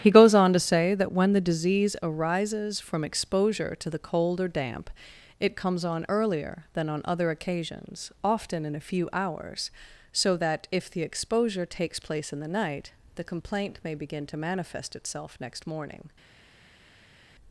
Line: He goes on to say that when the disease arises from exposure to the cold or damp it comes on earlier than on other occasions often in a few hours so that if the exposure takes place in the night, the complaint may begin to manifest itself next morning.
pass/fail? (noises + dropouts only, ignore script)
pass